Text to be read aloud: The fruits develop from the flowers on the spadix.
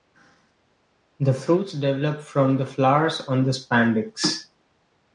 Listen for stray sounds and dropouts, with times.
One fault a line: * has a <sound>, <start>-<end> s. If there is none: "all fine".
all fine